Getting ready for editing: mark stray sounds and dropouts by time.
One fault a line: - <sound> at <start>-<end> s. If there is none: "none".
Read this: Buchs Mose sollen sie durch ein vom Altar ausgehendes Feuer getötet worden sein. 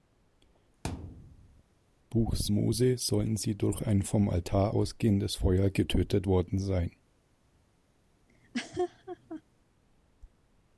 - thud at 0.8-1.6 s
- laugh at 8.3-9.4 s